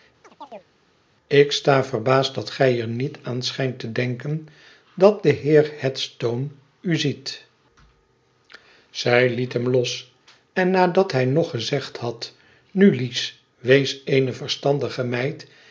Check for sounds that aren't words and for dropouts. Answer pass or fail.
fail